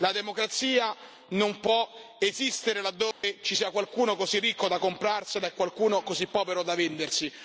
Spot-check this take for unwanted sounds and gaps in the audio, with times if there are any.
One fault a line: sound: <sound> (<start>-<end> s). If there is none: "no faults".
sound: dropout (3.1-3.2 s)